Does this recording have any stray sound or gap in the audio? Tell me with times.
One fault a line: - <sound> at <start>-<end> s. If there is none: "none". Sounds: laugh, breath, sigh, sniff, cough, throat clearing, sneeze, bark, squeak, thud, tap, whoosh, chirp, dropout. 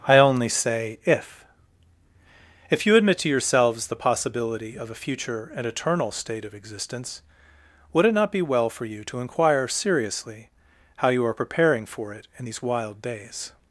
none